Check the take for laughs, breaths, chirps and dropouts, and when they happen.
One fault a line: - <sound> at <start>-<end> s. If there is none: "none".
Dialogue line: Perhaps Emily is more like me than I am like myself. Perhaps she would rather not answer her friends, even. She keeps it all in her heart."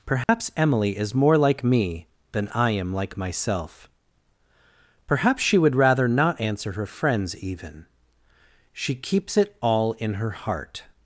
- dropout at 0.2-0.3 s